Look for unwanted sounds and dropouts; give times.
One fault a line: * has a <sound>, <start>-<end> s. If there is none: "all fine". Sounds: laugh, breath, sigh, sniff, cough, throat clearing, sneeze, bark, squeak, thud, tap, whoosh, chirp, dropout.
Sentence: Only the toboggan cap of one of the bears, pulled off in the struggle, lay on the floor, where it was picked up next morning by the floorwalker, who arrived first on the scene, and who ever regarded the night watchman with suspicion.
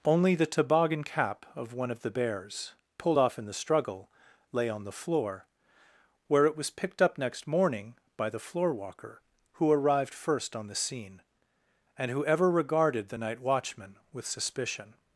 all fine